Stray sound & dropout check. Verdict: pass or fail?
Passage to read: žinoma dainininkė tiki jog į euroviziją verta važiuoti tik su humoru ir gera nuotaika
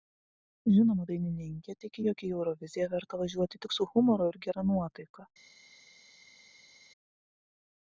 pass